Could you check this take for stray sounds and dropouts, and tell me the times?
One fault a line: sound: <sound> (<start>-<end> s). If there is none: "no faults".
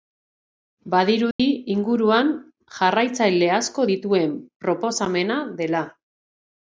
sound: dropout (1.3-1.4 s)